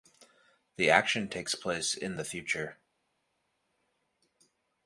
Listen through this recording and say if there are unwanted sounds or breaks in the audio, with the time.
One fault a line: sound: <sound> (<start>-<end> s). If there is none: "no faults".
no faults